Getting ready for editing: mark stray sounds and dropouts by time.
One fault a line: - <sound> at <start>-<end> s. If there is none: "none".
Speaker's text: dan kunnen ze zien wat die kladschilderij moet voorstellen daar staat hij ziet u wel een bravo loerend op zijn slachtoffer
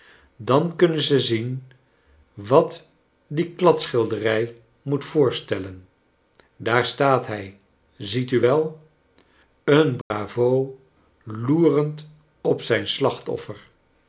- dropout at 10.0-10.1 s